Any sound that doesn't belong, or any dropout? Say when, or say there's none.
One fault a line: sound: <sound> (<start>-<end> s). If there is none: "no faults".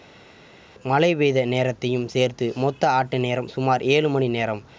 no faults